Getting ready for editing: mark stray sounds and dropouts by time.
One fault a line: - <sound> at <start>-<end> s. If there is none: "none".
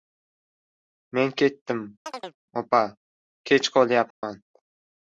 - chirp at 2.1-2.4 s
- dropout at 4.1-4.2 s